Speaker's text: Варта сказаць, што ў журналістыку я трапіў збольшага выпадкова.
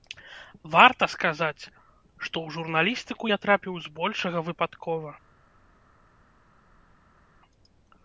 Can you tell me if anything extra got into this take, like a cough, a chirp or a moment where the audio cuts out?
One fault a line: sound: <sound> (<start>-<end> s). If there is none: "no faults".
no faults